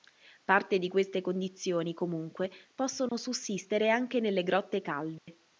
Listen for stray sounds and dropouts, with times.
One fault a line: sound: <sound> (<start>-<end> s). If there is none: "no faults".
sound: dropout (3.1-3.1 s)
sound: dropout (5.2-5.3 s)